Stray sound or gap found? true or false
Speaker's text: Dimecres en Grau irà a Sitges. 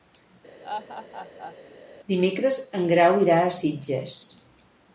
true